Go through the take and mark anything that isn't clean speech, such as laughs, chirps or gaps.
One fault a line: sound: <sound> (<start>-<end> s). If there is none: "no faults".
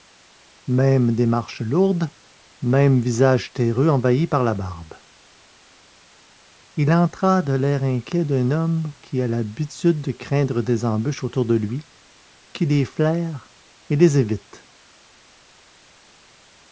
no faults